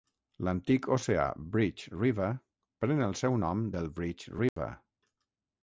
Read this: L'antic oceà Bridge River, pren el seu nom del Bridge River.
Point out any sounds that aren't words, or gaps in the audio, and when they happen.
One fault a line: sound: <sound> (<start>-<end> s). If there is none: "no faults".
sound: dropout (4.5-4.6 s)